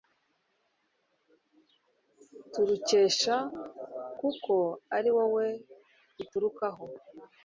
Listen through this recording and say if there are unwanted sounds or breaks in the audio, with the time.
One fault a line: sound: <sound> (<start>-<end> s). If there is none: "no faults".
no faults